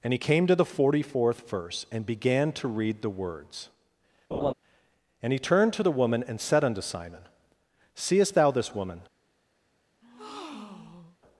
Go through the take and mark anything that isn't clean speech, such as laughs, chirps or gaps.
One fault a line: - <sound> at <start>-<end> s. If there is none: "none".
- laugh at 4.3-4.5 s
- breath at 10.0-11.2 s